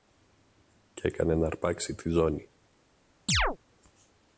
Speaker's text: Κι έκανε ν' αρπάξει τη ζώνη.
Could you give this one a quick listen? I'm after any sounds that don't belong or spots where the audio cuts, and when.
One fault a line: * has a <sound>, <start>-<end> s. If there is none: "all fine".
* has a chirp, 3.3-3.6 s